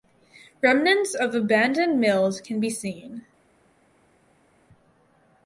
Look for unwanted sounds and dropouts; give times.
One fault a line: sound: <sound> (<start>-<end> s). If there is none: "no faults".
no faults